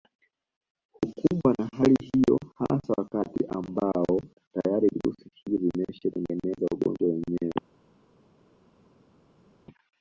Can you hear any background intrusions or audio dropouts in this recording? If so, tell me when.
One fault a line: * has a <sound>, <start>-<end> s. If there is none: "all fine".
all fine